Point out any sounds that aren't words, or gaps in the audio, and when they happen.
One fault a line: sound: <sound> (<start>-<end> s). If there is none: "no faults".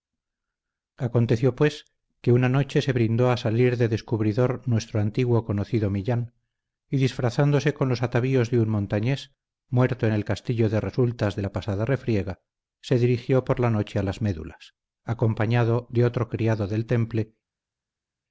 no faults